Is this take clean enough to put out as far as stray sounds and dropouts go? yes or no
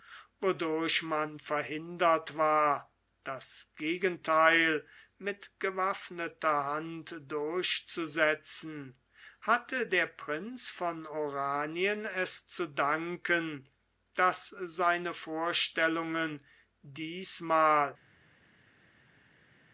yes